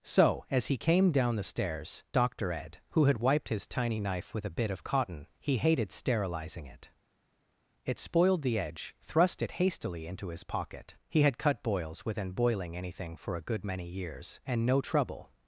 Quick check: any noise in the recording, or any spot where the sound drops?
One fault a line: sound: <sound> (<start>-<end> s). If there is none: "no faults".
no faults